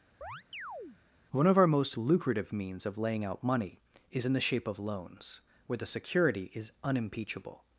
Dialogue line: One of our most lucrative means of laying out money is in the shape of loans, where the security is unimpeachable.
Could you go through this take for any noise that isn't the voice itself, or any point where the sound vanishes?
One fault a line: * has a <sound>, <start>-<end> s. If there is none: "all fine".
* has a chirp, 0.2-1.0 s